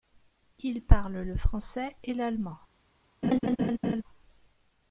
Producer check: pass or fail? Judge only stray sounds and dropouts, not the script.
fail